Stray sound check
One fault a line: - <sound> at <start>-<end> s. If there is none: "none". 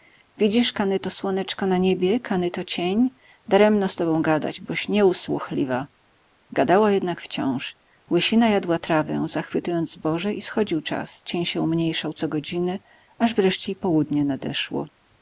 none